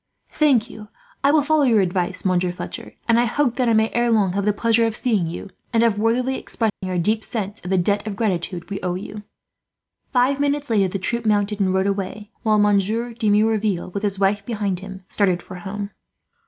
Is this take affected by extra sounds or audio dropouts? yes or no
yes